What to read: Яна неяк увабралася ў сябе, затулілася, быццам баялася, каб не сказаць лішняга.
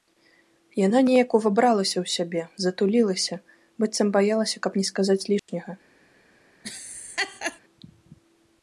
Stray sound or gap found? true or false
true